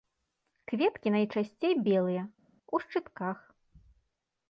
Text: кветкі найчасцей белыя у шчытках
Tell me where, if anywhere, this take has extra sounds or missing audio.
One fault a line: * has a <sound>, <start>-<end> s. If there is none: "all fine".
all fine